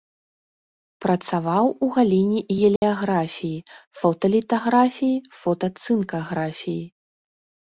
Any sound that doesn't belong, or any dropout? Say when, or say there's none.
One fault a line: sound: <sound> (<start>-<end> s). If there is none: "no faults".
sound: dropout (2.8-2.8 s)